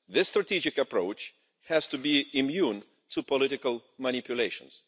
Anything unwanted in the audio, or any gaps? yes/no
no